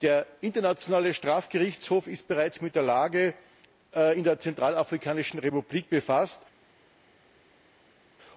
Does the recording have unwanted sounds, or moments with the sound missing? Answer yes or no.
no